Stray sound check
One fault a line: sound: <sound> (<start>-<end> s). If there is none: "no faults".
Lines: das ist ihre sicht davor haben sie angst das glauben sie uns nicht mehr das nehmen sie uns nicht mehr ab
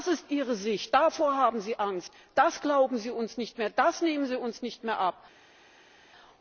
no faults